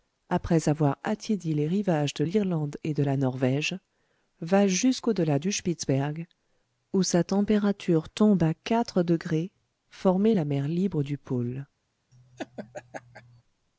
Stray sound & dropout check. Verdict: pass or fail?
fail